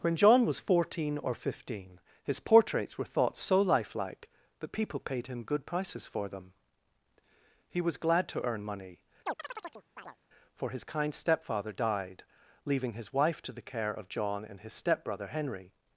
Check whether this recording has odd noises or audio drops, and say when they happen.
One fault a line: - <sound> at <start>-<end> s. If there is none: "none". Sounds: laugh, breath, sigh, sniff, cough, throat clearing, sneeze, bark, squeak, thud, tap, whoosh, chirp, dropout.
- chirp at 9.3-10.2 s